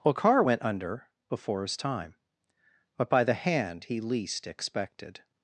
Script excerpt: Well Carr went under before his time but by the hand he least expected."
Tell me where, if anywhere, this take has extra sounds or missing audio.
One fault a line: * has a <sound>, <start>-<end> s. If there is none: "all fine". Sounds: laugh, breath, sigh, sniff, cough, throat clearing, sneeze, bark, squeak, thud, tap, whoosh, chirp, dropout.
all fine